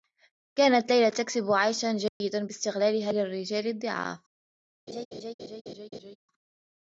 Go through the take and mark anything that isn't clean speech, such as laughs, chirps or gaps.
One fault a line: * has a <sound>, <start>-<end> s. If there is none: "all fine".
* has a dropout, 2.1-2.2 s
* has a laugh, 4.9-6.2 s